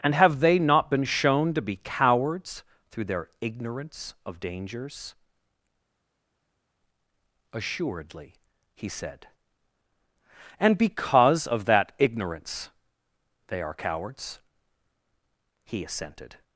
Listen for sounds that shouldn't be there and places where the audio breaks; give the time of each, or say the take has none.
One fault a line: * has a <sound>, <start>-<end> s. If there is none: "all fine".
all fine